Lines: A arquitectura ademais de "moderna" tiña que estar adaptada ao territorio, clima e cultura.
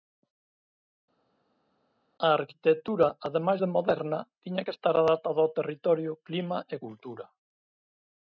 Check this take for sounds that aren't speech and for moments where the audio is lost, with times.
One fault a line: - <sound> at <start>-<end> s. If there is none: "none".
none